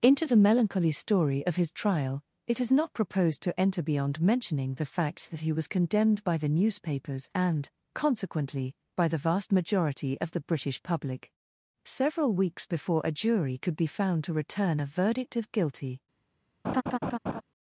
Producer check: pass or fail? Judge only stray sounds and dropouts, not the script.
fail